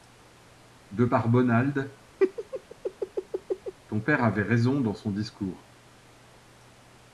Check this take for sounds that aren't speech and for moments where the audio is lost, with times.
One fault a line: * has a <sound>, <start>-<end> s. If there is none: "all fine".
* has a laugh, 2.2-3.7 s